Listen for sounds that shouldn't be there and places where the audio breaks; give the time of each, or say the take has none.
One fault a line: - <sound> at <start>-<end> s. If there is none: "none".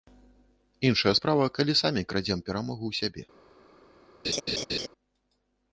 - laugh at 4.2-4.9 s